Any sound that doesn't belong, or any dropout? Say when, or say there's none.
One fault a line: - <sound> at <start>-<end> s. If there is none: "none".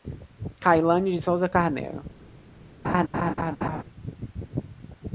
- laugh at 2.8-3.8 s